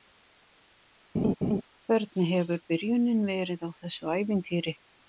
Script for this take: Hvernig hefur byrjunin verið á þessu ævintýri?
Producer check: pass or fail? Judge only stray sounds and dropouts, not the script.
fail